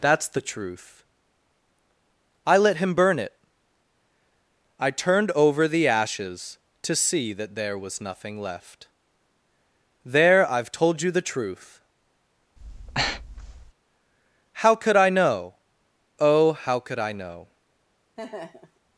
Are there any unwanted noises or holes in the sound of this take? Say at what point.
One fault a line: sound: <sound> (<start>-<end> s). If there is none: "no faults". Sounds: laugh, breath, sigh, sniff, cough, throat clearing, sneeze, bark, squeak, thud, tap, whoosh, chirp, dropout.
sound: breath (12.6-13.7 s)
sound: laugh (18.2-18.8 s)